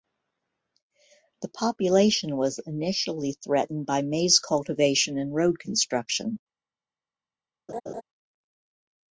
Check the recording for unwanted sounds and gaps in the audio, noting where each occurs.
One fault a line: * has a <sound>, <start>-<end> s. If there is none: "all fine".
* has a laugh, 7.7-8.0 s